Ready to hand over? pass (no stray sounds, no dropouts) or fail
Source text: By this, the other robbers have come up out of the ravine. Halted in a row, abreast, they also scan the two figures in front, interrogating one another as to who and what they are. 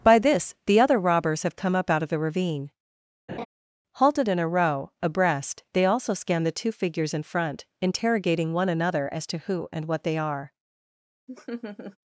fail